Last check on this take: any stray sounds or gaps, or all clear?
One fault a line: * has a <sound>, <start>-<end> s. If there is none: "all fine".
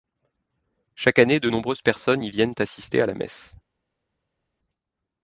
all fine